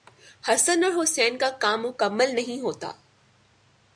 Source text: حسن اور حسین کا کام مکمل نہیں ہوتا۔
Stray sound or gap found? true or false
false